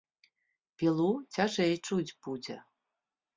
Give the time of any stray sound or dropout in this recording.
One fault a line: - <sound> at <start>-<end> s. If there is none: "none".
none